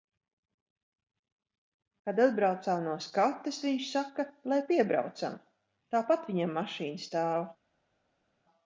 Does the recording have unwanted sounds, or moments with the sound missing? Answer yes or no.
no